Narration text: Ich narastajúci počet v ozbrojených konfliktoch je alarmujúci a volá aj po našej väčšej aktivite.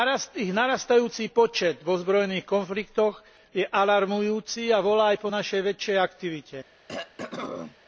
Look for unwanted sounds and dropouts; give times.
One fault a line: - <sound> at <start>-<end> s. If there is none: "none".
- throat clearing at 6.9-7.8 s